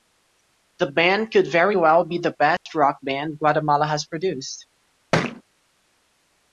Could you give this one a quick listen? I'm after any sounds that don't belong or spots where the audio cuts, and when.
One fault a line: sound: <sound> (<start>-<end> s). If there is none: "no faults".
sound: dropout (2.6-2.7 s)
sound: thud (5.1-5.4 s)